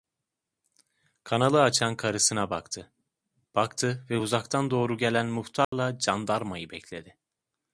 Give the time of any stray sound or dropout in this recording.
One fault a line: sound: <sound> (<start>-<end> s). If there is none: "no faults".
sound: dropout (5.6-5.7 s)